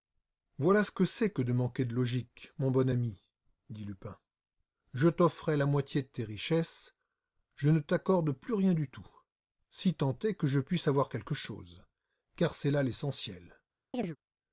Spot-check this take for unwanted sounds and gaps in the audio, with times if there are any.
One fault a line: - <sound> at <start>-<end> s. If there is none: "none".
- chirp at 13.9-14.2 s